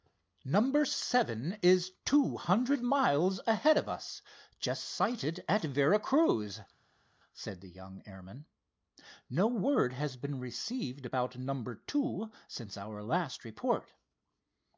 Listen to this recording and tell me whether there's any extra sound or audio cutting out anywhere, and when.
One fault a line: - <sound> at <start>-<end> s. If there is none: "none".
none